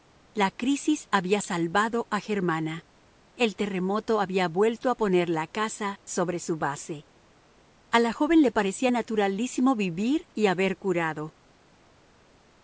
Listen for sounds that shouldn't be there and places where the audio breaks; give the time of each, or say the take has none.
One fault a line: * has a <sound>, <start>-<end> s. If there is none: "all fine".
all fine